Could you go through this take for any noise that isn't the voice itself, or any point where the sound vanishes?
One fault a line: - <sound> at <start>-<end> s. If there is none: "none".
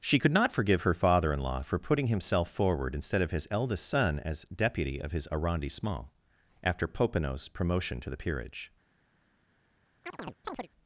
- chirp at 10.0-10.7 s